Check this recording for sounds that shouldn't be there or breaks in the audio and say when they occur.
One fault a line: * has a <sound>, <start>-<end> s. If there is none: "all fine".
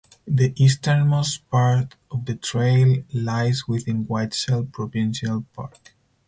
all fine